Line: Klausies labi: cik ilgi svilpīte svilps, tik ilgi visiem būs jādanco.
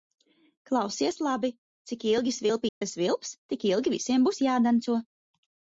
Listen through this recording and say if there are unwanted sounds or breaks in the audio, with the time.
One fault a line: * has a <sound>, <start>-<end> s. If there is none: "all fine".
* has a dropout, 2.7-2.8 s